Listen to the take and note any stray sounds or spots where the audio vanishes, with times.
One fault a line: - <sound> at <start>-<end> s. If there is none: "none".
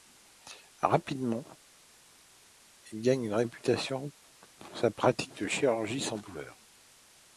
none